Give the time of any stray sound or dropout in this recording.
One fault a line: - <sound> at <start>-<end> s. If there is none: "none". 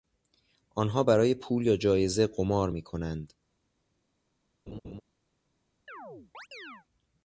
- laugh at 4.7-5.0 s
- chirp at 5.9-6.9 s